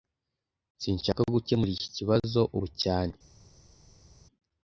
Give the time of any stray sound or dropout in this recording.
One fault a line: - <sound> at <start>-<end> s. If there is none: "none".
none